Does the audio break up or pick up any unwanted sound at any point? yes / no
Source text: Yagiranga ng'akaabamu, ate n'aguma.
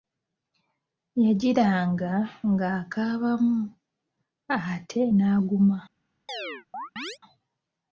yes